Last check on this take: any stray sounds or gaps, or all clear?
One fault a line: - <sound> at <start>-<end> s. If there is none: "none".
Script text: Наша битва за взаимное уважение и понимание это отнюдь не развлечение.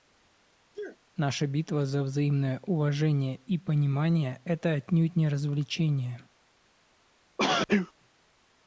- sneeze at 0.7-1.0 s
- sneeze at 7.4-7.9 s